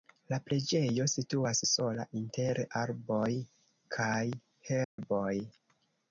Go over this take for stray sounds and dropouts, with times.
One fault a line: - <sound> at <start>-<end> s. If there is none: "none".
- dropout at 4.8-5.0 s